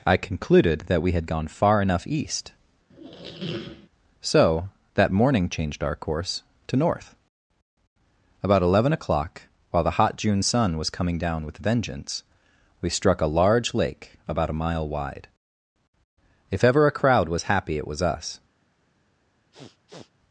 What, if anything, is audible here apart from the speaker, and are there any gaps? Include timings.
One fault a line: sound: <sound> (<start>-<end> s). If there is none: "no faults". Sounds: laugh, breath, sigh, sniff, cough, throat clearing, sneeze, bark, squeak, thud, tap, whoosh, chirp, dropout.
sound: squeak (2.9-3.9 s)
sound: sniff (19.5-20.1 s)